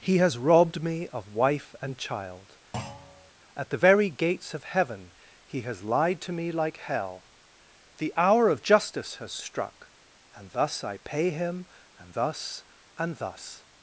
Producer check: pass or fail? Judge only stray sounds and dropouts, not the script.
fail